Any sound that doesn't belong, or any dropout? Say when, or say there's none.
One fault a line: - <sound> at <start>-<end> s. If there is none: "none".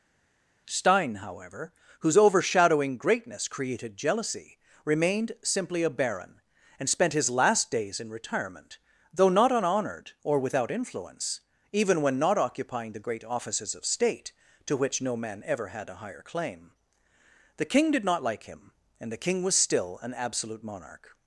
none